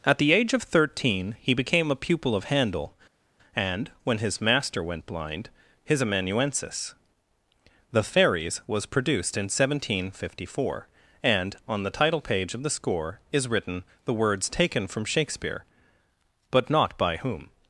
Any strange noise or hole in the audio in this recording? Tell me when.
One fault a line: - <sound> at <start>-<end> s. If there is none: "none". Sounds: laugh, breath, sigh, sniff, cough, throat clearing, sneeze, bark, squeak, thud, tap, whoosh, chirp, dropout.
none